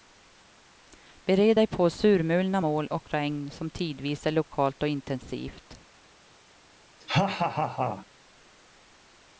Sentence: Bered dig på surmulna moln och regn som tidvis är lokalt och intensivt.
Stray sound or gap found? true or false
true